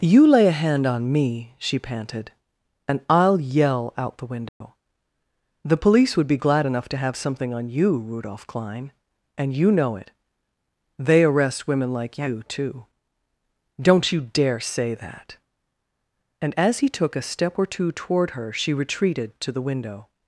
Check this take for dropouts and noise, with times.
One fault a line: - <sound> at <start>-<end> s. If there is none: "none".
- dropout at 4.5-4.6 s